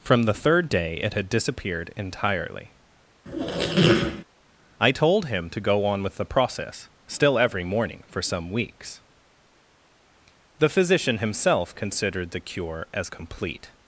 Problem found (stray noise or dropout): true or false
true